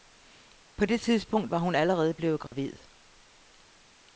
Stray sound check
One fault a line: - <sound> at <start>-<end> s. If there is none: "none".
- dropout at 2.5-2.5 s